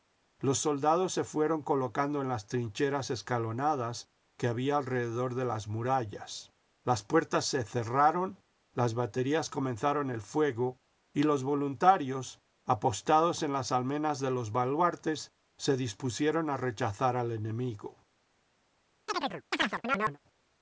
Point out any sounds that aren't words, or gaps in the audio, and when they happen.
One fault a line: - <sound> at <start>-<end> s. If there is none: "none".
- chirp at 19.1-20.2 s